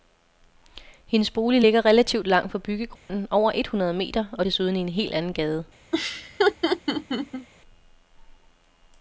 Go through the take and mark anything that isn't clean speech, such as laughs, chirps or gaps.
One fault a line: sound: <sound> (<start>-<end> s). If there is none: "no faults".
sound: dropout (3.0-3.1 s)
sound: laugh (5.9-7.5 s)